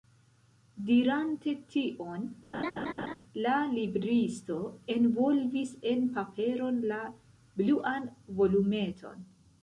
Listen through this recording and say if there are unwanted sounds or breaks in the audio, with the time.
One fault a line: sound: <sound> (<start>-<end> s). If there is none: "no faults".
sound: laugh (2.5-3.1 s)